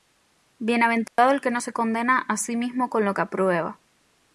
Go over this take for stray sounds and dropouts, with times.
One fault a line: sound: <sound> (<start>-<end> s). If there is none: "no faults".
sound: dropout (1.1-1.2 s)